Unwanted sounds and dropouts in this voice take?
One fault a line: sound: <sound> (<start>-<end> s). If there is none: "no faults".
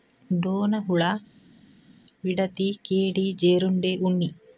no faults